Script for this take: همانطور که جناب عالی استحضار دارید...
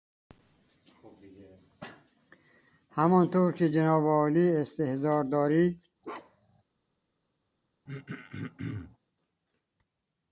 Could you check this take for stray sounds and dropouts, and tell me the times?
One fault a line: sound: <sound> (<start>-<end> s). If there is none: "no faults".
sound: bark (6.0-6.6 s)
sound: throat clearing (7.9-9.0 s)